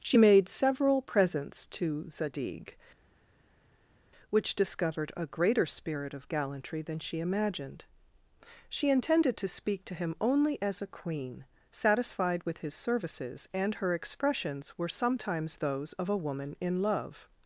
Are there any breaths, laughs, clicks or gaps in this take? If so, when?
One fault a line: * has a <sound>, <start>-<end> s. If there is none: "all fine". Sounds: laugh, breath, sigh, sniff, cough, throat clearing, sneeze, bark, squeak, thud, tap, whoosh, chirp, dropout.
all fine